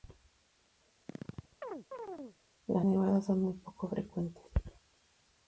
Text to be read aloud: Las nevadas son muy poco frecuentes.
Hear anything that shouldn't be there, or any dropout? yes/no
yes